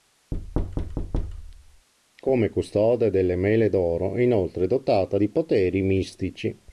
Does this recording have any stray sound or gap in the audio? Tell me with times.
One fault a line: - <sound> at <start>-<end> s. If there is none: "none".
- thud at 0.3-1.9 s